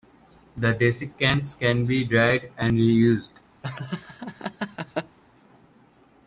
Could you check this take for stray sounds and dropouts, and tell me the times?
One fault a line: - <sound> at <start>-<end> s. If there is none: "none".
- laugh at 3.6-5.2 s